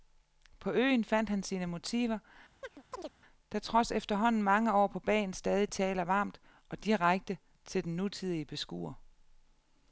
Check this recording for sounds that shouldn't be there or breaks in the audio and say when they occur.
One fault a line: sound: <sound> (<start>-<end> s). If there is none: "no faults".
sound: chirp (2.6-3.1 s)